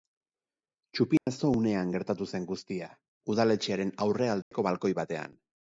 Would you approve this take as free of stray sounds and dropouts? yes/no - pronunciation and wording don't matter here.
no